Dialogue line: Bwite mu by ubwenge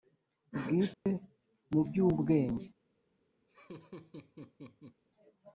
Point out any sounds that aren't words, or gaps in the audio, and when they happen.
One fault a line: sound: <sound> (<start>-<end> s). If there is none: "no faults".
sound: dropout (0.9-1.1 s)
sound: laugh (3.5-5.0 s)